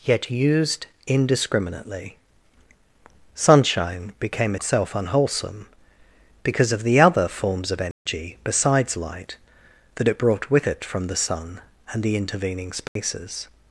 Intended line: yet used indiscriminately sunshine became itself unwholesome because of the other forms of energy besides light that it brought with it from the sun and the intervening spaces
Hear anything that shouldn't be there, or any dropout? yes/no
yes